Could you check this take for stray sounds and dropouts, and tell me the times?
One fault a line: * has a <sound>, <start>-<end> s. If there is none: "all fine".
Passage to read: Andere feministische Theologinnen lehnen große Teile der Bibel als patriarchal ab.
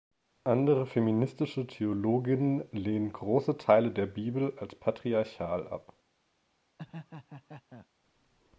* has a laugh, 6.8-7.9 s